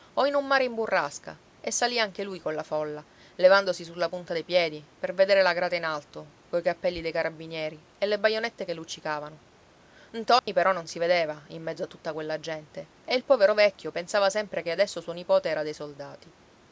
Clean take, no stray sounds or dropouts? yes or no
no